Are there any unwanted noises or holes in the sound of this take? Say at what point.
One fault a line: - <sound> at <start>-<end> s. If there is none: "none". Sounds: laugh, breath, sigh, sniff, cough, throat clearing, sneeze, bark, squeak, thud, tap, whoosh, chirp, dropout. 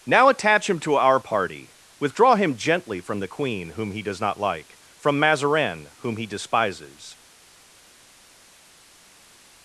none